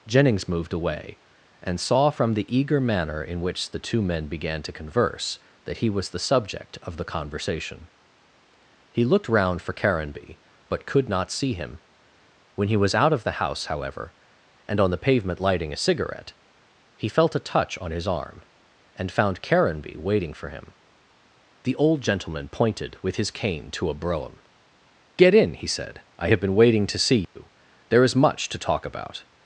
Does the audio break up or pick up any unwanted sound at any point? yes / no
yes